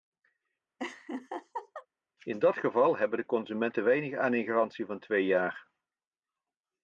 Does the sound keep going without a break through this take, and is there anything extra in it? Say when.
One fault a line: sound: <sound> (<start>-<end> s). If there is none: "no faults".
sound: laugh (0.8-1.9 s)